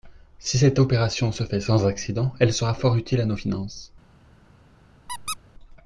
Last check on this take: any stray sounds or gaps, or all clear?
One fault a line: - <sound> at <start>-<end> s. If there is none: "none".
- squeak at 5.1-5.4 s